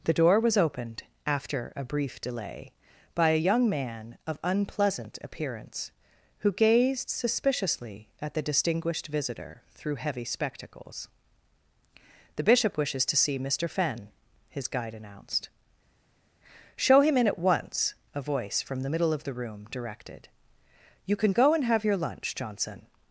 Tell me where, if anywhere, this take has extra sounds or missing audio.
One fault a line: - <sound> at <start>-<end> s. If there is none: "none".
none